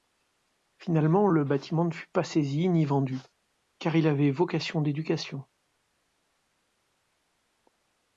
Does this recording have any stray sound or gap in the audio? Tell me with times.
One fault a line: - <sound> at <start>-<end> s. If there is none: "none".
none